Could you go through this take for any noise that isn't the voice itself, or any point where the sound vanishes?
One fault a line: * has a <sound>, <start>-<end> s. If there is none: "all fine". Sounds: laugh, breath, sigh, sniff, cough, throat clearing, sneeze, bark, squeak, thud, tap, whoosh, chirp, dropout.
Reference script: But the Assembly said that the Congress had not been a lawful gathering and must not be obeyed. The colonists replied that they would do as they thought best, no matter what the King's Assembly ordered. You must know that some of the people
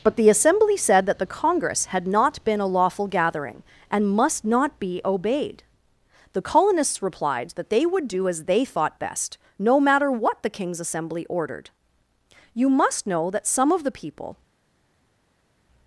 all fine